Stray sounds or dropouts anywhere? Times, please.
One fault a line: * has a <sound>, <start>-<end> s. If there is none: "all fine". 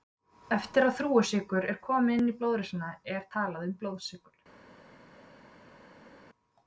all fine